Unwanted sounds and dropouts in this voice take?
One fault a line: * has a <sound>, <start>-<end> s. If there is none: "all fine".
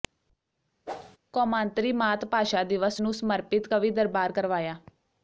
* has a whoosh, 0.9-1.2 s